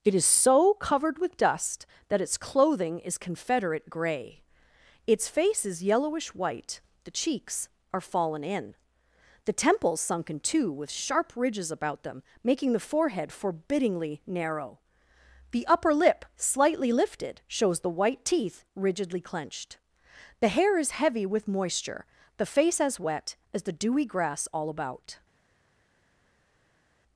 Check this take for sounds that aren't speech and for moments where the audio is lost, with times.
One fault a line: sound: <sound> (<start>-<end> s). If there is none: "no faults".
no faults